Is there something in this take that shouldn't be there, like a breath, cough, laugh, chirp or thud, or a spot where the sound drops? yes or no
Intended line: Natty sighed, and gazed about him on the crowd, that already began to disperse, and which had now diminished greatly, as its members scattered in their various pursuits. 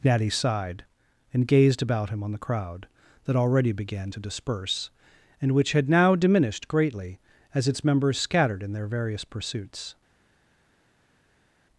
no